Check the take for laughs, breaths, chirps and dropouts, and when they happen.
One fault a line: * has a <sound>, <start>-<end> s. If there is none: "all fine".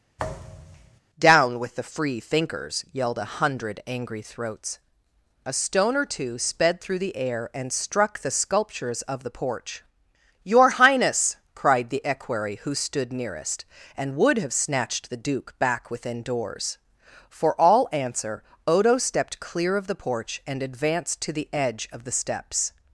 * has a thud, 0.2-1.0 s